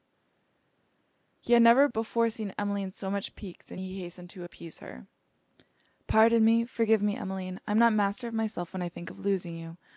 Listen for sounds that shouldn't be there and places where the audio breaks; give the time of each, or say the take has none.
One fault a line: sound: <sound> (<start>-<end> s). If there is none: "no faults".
no faults